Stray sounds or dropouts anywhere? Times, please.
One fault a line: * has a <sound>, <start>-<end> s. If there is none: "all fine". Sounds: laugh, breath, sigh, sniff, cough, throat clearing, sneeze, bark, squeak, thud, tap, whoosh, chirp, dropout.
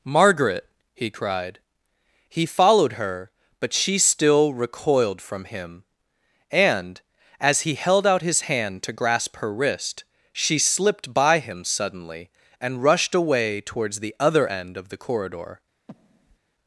* has a breath, 15.9-16.4 s